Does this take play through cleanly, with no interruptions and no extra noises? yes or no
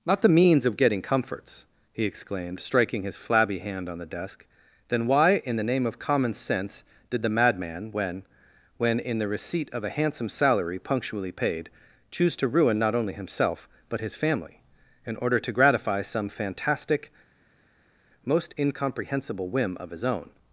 yes